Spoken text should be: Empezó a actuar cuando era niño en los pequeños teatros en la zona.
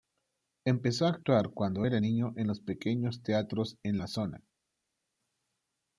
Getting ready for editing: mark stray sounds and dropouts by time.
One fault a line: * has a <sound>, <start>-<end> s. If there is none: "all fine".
all fine